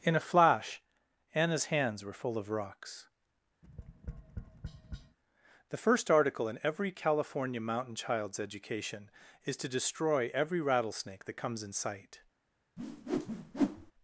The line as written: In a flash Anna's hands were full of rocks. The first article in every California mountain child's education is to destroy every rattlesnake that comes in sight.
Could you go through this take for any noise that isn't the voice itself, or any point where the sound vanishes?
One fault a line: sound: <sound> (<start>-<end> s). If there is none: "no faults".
sound: tap (3.6-5.2 s)
sound: whoosh (12.8-13.9 s)